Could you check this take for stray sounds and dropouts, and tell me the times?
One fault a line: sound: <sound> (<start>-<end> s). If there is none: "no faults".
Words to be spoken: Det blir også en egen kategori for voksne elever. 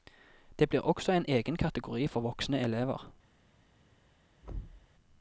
sound: thud (4.4-4.9 s)